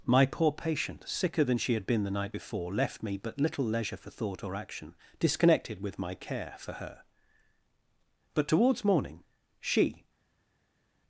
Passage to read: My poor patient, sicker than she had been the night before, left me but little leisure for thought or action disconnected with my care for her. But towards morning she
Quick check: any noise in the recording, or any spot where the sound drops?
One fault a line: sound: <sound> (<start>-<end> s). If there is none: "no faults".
no faults